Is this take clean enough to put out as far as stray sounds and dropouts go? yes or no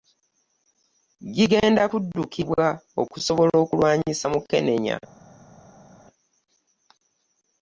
yes